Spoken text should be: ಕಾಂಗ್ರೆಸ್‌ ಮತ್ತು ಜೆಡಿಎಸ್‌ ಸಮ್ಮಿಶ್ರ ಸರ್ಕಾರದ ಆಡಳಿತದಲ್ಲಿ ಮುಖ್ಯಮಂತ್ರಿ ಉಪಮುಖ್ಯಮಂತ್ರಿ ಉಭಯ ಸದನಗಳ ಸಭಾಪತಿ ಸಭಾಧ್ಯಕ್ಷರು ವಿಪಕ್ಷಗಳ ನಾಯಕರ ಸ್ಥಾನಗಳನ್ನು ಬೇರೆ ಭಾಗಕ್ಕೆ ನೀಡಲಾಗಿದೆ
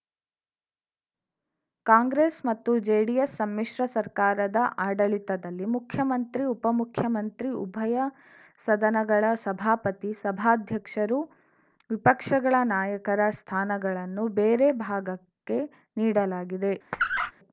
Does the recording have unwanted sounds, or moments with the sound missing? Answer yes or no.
yes